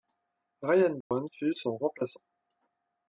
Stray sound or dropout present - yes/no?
yes